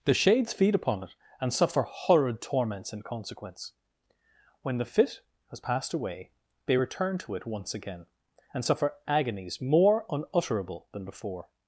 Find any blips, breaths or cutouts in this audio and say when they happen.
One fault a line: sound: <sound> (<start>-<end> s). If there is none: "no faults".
no faults